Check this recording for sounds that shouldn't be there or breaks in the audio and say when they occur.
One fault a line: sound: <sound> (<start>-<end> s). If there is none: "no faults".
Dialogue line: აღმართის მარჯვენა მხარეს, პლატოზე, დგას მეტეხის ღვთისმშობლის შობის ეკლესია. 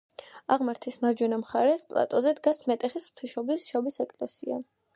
no faults